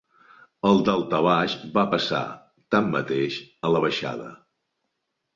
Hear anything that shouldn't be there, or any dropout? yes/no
no